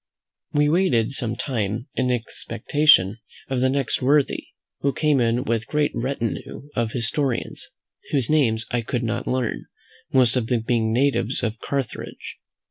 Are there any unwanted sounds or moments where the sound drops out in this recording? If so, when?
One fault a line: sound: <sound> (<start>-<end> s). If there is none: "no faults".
no faults